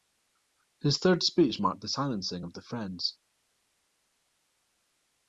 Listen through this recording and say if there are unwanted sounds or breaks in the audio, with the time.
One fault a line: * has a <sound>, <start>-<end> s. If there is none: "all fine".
all fine